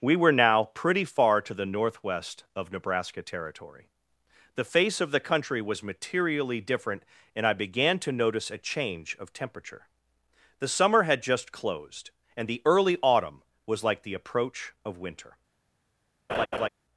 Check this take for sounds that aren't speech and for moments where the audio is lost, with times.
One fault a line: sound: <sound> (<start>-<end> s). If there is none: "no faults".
sound: laugh (16.3-16.7 s)